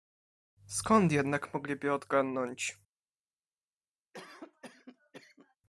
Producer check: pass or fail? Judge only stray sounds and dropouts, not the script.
fail